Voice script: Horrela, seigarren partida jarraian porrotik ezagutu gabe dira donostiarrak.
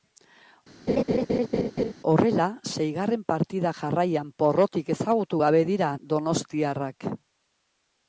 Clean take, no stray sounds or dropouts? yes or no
no